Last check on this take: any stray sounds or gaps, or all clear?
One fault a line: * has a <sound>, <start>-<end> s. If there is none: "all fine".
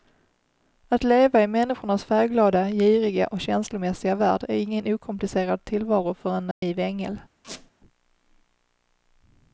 * has a dropout, 6.5-6.6 s
* has a squeak, 7.4-7.7 s